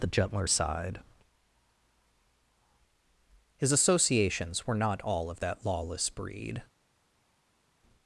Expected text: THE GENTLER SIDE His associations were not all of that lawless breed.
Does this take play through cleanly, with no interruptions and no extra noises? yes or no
yes